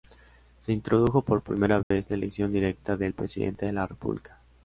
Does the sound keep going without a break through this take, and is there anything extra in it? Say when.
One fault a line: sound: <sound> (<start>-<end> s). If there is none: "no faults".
sound: dropout (1.8-1.9 s)